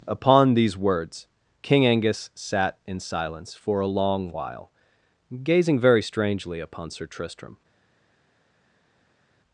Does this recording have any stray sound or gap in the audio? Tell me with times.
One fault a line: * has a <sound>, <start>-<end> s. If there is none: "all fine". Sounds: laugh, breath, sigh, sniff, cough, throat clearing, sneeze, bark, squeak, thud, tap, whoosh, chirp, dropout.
all fine